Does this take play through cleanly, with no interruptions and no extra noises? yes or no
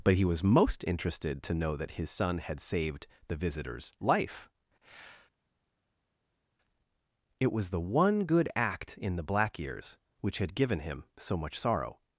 yes